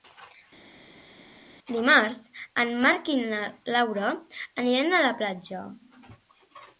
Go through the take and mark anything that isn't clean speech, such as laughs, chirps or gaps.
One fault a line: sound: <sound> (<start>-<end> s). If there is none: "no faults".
no faults